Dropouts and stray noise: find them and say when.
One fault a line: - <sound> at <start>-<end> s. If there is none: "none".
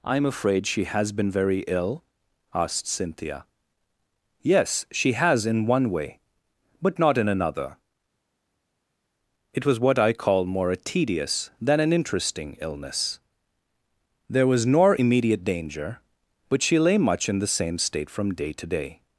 none